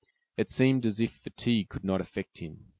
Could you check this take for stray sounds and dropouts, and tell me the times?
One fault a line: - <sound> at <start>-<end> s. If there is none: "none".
none